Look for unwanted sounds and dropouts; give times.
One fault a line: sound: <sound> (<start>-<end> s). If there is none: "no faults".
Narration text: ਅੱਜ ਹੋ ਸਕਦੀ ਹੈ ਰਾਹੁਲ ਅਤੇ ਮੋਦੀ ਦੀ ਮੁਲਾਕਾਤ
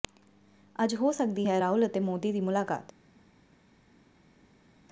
no faults